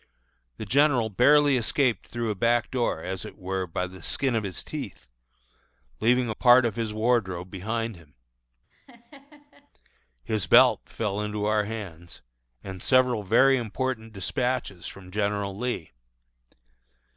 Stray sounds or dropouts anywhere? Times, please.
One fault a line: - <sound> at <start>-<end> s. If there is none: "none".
- laugh at 8.7-9.7 s